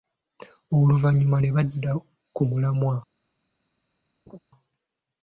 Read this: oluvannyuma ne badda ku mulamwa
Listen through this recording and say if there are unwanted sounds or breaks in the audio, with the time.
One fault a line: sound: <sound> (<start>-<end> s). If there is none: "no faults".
sound: laugh (4.3-4.4 s)